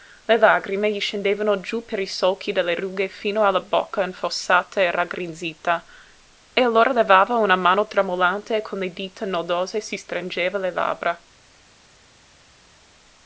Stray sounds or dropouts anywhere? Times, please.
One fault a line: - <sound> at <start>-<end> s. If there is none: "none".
none